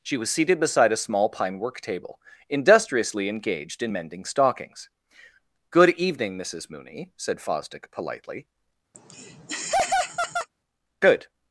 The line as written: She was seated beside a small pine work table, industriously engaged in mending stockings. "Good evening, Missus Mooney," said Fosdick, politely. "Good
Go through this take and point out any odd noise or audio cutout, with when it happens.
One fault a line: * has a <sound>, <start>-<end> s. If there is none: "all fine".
* has a laugh, 8.9-10.5 s